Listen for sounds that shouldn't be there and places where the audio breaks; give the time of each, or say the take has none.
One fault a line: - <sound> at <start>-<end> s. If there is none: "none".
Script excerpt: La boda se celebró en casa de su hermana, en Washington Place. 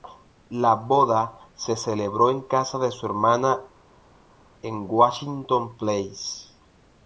none